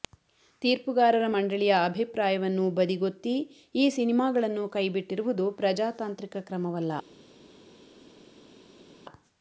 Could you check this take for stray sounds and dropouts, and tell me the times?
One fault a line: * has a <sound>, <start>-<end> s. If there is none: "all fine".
all fine